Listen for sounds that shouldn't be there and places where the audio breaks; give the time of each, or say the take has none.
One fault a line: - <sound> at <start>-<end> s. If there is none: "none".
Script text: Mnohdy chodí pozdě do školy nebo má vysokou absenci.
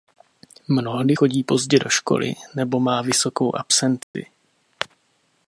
- dropout at 4.0-4.1 s